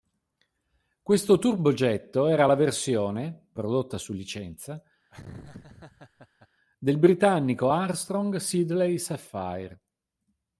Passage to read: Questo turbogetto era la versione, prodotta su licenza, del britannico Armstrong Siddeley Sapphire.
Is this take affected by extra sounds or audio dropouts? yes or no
yes